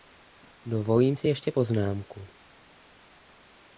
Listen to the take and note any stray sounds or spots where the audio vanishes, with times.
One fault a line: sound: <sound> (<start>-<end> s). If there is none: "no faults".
no faults